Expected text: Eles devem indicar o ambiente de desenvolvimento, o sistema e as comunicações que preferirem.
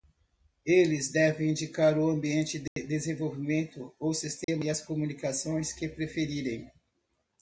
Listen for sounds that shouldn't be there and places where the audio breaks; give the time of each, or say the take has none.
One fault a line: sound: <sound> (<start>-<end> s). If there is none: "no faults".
sound: dropout (2.7-2.8 s)
sound: dropout (4.4-4.5 s)